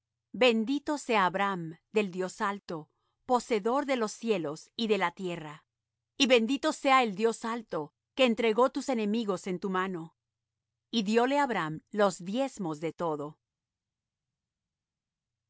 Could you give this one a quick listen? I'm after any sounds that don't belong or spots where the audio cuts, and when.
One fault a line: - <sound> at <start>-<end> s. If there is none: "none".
none